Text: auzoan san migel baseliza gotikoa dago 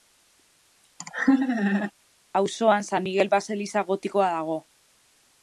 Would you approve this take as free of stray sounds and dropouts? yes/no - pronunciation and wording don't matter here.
no